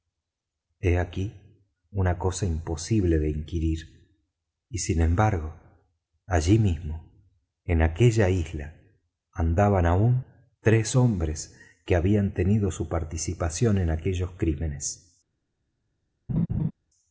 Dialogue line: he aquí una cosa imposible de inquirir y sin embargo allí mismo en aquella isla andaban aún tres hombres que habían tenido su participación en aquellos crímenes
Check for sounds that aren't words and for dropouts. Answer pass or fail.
fail